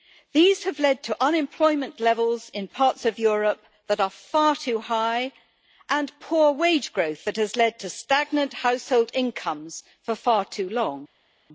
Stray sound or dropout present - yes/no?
no